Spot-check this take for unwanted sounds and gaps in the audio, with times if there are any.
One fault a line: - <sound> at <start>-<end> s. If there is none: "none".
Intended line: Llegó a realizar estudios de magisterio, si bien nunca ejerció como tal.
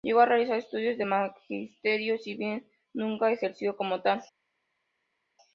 none